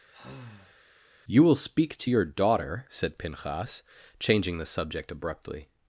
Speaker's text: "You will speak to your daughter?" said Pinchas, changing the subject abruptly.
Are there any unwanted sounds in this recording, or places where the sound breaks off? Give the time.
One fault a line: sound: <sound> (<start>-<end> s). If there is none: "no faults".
sound: sigh (0.1-0.8 s)